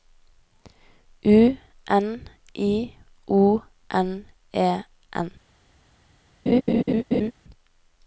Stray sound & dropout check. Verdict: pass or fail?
fail